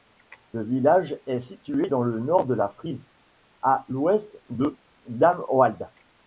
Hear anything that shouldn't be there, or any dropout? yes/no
no